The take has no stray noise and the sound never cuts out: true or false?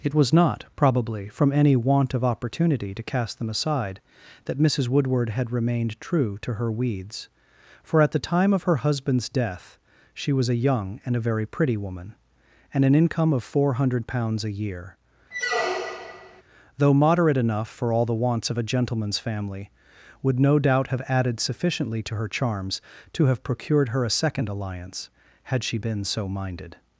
false